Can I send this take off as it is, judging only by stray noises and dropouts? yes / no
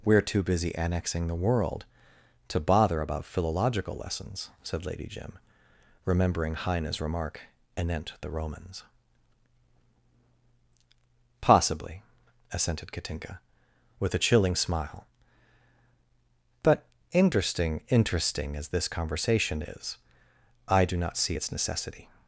yes